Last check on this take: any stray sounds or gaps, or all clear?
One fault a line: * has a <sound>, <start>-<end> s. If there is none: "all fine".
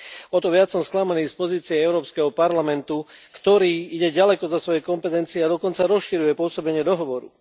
all fine